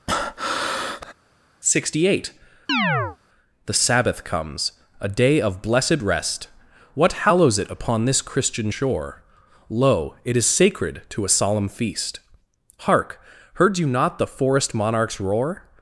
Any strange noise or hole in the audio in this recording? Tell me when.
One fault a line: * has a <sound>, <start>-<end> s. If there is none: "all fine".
* has a breath, 0.1-1.1 s
* has a chirp, 2.7-3.2 s